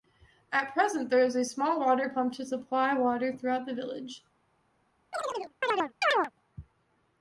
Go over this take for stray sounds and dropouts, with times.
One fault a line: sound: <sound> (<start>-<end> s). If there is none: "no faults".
sound: chirp (5.1-6.3 s)